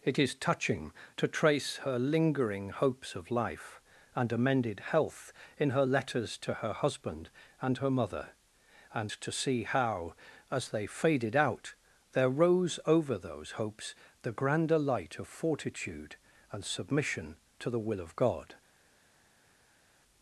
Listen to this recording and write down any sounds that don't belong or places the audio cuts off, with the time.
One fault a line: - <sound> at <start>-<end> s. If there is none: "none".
none